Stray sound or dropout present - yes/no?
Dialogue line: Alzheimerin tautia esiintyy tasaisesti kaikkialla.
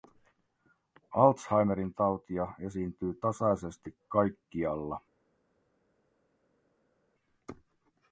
no